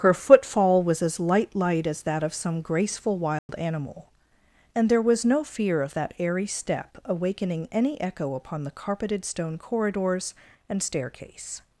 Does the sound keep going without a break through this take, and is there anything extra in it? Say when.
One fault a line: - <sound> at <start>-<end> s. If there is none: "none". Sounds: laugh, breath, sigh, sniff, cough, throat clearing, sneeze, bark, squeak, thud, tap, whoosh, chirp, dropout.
- dropout at 3.4-3.5 s